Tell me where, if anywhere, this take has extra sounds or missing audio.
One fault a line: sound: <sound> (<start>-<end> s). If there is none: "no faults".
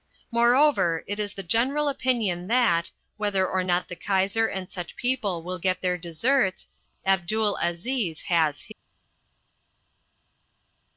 no faults